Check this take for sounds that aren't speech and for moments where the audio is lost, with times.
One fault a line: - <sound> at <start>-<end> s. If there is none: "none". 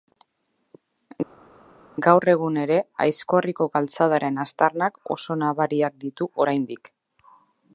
none